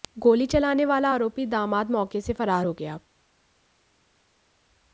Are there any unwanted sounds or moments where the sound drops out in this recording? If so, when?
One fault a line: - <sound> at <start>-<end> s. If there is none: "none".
none